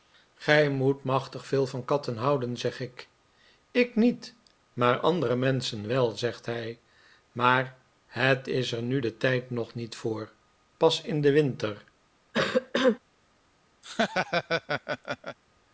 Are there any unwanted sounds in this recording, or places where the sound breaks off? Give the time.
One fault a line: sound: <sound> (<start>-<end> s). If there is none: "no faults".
sound: cough (12.3-13.0 s)
sound: laugh (13.8-15.4 s)